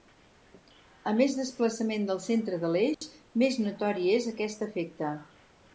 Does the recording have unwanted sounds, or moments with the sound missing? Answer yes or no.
yes